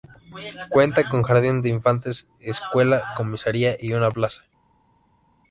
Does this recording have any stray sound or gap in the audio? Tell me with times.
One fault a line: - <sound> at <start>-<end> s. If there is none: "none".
none